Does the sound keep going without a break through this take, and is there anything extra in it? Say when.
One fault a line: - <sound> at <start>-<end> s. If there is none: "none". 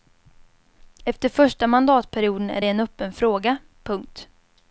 none